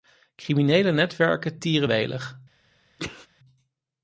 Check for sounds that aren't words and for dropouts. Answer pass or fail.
fail